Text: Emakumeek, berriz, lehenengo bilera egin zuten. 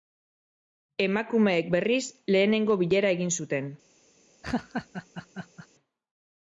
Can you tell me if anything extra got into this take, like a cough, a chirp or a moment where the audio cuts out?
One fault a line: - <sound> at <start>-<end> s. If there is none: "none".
- laugh at 4.4-5.7 s